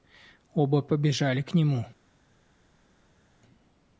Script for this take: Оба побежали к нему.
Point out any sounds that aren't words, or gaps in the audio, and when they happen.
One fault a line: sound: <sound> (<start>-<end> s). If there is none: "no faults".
no faults